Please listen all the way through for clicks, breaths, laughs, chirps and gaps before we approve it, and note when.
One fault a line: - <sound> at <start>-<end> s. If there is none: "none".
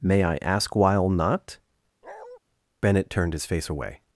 - bark at 2.0-2.4 s